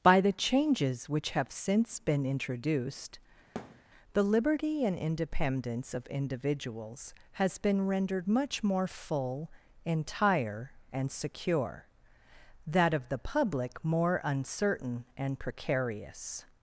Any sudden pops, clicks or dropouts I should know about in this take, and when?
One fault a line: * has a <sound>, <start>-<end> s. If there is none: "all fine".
* has a thud, 3.6-3.8 s